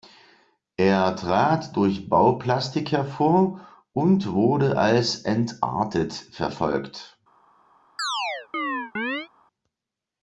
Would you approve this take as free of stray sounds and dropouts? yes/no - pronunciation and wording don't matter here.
no